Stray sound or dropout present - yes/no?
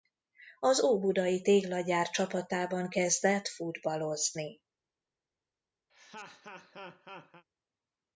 yes